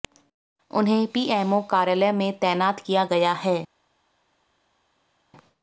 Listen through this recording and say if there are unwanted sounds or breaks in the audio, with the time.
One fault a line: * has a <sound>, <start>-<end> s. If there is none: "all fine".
all fine